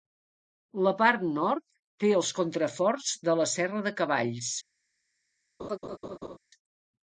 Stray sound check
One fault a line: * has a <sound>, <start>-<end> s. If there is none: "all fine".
* has a laugh, 5.6-6.4 s